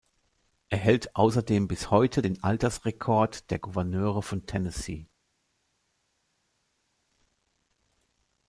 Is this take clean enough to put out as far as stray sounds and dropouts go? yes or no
yes